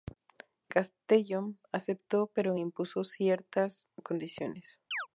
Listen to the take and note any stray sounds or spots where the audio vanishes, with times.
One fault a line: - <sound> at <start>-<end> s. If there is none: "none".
- chirp at 4.9-5.1 s